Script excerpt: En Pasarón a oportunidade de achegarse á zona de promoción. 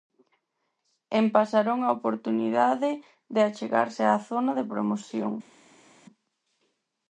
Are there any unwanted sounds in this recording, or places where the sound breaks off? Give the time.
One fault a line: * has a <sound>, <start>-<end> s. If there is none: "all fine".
all fine